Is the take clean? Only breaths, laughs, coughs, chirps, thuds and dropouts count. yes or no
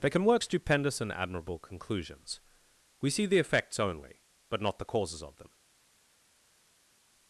yes